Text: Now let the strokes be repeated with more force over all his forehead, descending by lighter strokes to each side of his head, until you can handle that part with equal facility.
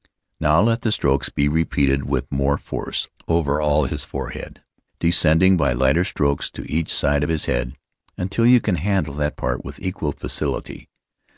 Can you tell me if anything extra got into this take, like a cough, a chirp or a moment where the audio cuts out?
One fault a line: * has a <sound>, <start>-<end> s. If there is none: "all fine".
all fine